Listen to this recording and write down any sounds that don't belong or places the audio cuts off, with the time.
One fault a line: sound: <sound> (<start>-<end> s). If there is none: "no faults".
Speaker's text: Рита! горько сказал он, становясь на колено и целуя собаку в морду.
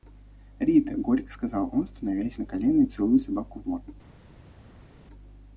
no faults